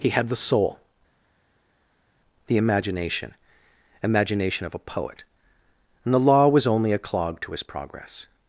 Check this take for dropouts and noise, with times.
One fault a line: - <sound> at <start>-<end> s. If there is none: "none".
none